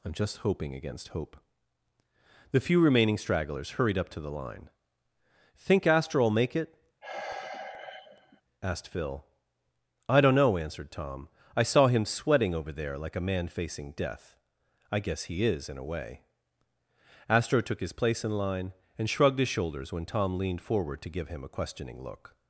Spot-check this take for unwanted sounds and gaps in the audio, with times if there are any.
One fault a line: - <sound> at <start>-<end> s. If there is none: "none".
- sigh at 7.0-8.4 s